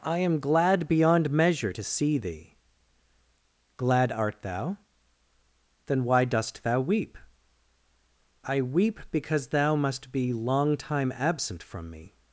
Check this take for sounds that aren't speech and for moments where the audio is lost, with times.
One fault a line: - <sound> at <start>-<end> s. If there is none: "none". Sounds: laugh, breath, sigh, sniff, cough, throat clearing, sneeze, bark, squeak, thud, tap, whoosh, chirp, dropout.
none